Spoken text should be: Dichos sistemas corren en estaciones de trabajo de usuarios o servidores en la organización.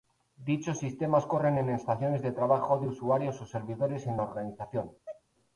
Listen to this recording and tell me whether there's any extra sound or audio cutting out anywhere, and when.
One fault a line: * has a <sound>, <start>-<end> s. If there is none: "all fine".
* has a sneeze, 5.1-5.2 s